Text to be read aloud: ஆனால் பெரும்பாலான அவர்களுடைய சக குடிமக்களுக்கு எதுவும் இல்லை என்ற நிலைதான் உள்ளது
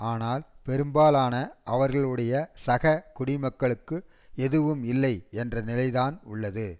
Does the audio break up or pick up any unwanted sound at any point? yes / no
no